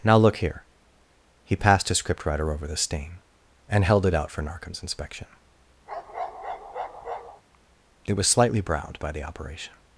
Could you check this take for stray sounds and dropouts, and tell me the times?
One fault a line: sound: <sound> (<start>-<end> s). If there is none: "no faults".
sound: bark (5.9-7.4 s)